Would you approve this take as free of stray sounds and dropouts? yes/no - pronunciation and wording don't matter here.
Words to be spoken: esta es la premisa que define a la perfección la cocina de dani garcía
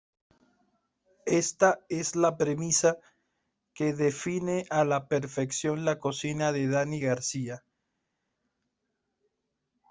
yes